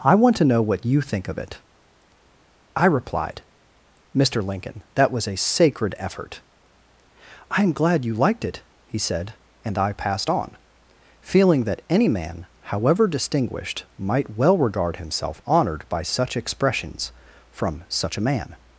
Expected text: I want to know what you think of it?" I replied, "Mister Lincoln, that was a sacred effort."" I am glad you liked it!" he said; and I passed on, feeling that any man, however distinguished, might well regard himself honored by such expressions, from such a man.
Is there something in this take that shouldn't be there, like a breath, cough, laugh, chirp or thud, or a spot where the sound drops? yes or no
no